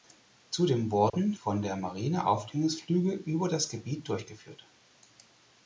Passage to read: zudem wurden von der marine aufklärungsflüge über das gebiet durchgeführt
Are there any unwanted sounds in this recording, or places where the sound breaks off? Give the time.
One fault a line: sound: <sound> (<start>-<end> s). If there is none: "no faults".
sound: dropout (1.1-1.1 s)